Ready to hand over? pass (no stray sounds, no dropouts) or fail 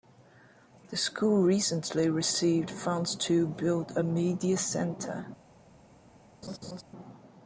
fail